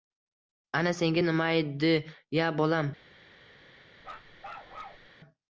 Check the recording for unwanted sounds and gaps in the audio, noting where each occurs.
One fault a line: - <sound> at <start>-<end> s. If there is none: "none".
- bark at 4.0-5.1 s